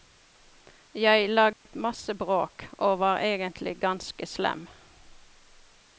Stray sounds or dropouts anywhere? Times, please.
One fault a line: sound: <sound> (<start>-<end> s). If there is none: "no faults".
sound: dropout (1.5-1.7 s)